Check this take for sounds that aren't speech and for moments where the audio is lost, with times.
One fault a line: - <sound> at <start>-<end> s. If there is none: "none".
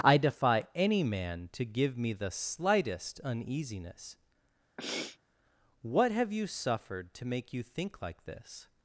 - sniff at 4.8-5.2 s